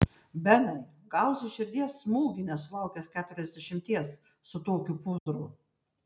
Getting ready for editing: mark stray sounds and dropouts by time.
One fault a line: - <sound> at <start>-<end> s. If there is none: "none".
- dropout at 5.2-5.3 s